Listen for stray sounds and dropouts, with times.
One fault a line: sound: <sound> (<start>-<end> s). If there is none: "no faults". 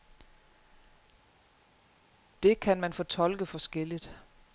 no faults